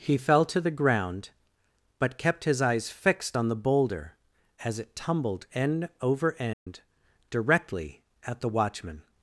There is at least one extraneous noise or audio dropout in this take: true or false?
true